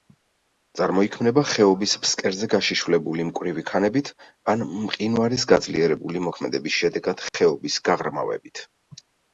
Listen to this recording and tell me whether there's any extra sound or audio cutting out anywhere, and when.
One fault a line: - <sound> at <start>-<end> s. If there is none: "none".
none